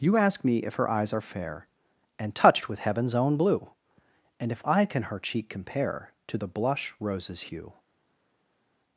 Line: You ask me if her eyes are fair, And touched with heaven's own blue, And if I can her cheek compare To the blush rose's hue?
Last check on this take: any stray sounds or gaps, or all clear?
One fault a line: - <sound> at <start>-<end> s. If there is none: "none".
none